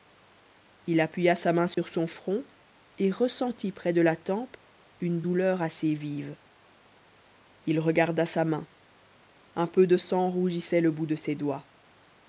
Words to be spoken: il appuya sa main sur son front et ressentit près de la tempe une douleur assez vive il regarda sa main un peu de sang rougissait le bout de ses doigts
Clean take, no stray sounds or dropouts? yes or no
no